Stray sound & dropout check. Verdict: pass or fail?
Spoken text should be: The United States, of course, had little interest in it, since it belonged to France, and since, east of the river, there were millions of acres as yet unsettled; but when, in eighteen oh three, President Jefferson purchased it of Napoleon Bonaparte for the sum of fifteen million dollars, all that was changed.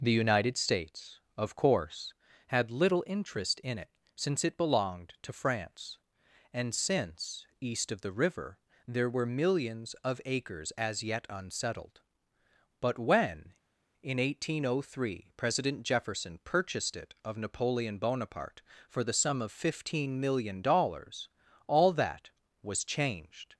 pass